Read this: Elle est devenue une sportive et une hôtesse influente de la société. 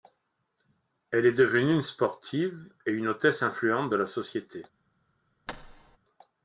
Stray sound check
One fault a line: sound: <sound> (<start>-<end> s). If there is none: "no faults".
sound: thud (5.5-6.0 s)